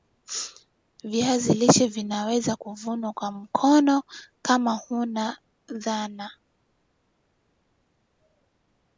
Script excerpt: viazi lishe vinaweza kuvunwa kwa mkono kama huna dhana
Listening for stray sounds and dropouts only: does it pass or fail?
pass